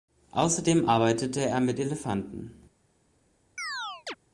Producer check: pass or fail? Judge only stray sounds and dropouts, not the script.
fail